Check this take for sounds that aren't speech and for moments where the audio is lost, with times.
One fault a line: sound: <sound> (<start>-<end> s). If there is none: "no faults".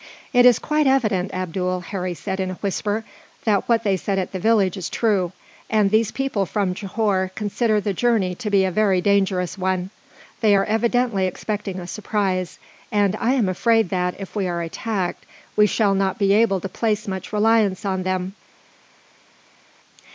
no faults